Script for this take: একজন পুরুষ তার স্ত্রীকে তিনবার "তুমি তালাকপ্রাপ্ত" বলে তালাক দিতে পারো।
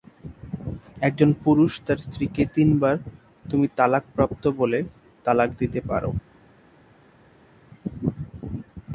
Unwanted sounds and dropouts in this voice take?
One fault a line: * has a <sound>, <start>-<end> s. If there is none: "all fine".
all fine